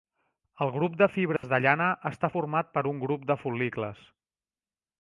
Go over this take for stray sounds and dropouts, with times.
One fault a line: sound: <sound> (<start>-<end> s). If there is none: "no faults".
sound: dropout (1.4-1.4 s)